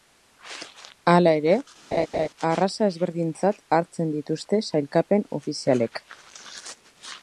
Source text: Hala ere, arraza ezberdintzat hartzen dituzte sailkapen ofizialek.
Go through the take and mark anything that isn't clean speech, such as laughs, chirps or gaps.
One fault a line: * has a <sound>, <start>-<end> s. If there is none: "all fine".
* has a laugh, 1.9-2.3 s